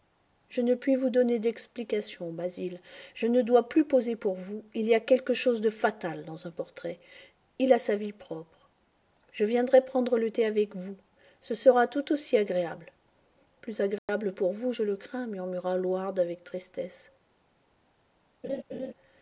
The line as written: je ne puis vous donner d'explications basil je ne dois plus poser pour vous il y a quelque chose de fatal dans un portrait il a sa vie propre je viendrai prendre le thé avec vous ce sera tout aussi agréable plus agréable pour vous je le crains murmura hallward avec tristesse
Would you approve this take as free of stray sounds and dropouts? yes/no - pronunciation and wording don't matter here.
no